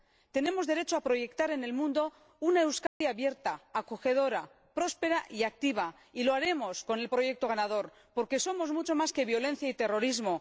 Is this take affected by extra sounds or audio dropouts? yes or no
yes